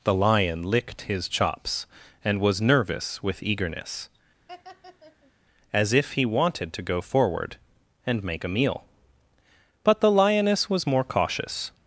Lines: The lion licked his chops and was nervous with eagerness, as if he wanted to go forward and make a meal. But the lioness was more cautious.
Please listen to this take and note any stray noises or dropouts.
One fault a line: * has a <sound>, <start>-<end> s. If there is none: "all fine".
* has a laugh, 4.5-5.3 s